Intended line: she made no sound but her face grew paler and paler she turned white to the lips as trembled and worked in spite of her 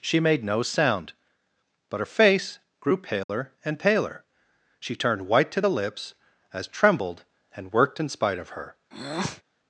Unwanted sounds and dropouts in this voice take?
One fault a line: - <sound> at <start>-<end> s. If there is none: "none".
- dropout at 3.2-3.3 s
- breath at 8.9-9.4 s